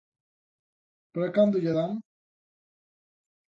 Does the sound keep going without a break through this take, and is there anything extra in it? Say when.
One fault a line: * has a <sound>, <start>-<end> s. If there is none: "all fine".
all fine